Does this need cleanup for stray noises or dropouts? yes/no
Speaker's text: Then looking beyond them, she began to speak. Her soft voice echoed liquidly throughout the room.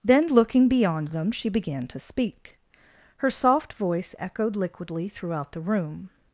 no